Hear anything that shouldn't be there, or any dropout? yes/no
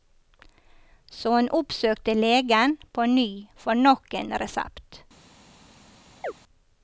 yes